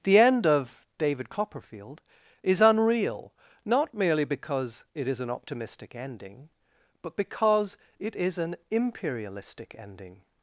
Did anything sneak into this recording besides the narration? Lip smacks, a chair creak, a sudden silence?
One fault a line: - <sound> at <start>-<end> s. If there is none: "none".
none